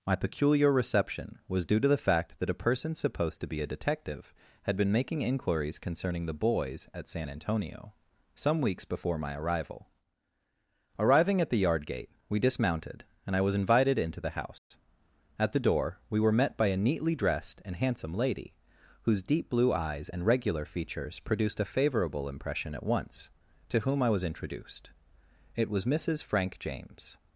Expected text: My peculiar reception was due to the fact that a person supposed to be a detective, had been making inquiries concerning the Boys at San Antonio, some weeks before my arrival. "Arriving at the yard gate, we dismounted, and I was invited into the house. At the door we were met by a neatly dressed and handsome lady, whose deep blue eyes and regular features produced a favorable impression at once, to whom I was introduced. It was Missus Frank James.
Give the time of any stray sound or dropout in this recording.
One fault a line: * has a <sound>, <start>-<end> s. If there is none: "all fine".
* has a dropout, 14.6-14.7 s